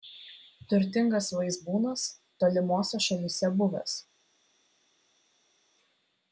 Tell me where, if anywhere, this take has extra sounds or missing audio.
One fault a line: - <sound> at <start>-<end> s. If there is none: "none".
none